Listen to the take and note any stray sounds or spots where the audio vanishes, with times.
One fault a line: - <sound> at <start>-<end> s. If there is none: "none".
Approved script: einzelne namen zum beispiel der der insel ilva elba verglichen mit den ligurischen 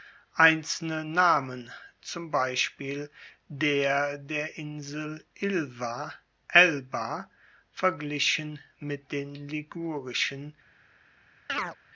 - chirp at 11.5-11.8 s